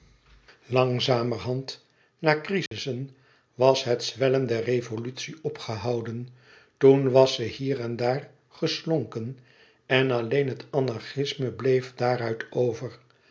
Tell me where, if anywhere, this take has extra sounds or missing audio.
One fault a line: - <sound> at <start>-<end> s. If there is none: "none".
- dropout at 2.7-2.7 s